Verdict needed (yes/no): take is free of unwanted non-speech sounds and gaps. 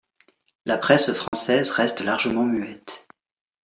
no